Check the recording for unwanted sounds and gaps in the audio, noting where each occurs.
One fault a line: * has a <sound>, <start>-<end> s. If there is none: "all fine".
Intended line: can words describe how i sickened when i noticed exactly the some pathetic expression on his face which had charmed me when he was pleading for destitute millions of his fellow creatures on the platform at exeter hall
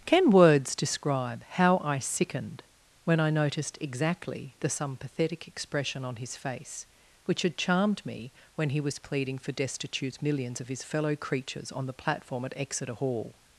all fine